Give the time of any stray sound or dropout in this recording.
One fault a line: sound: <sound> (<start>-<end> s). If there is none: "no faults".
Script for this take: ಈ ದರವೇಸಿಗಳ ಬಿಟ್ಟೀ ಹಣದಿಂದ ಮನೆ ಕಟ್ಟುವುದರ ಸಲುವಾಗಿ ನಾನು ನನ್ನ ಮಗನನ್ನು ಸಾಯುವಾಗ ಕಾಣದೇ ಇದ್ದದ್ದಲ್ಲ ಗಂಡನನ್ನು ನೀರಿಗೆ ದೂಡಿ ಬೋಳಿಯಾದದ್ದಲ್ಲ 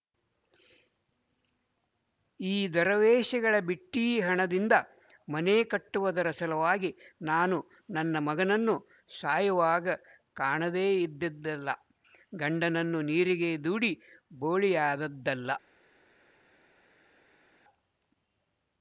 no faults